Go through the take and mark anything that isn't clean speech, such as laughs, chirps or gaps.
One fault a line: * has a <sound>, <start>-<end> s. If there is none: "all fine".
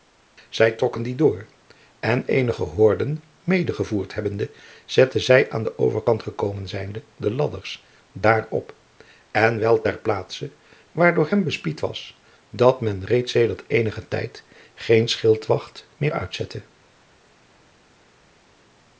all fine